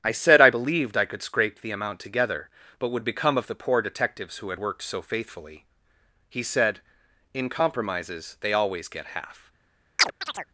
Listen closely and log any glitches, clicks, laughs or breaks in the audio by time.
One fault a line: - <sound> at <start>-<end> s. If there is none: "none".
- chirp at 10.0-10.5 s